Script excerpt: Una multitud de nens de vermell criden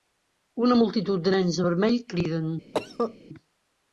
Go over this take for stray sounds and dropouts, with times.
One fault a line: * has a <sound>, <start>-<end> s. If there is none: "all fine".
* has a cough, 2.7-3.2 s